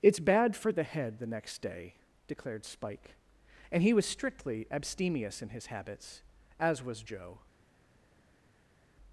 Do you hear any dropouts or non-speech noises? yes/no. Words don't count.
no